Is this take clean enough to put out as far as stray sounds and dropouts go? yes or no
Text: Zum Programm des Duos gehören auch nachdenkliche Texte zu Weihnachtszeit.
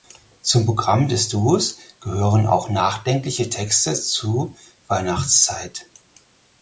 yes